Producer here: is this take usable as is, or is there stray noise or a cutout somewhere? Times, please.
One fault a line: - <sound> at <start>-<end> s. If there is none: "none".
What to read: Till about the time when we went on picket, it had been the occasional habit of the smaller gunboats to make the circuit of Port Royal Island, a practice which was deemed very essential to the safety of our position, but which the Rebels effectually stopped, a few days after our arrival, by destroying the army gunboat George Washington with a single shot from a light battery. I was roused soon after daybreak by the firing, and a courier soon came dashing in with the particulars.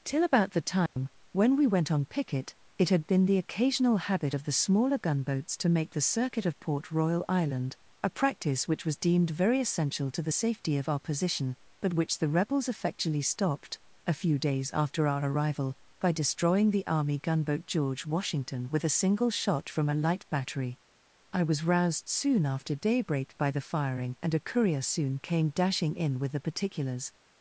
- dropout at 0.9-1.0 s